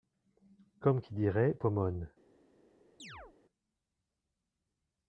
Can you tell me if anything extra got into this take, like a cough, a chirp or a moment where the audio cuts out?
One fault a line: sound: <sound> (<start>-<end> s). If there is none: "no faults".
sound: chirp (3.0-3.4 s)